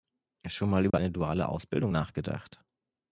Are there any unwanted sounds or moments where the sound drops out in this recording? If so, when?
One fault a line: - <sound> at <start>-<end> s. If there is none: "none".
- dropout at 0.9-0.9 s